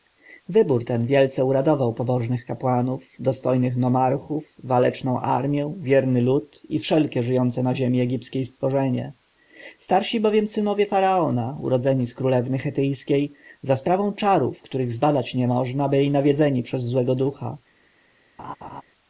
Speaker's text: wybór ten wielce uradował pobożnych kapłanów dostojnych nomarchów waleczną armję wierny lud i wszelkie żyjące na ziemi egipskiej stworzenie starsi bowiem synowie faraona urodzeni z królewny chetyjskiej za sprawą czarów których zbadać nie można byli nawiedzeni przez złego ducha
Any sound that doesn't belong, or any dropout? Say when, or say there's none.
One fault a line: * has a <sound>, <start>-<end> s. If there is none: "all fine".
* has a laugh, 18.4-18.8 s